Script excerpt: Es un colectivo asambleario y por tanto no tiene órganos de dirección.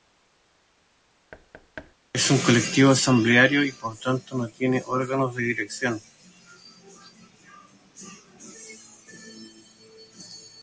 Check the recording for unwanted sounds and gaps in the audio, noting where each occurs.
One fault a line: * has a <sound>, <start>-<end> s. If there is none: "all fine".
* has a thud, 1.3-1.9 s